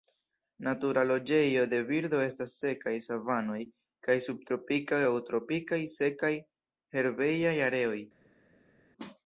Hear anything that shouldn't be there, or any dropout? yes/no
no